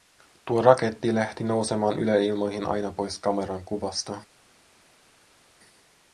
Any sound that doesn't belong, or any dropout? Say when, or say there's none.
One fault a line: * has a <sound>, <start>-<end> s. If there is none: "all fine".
all fine